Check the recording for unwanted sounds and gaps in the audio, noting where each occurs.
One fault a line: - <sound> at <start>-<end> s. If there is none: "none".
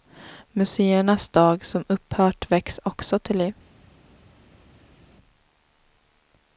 none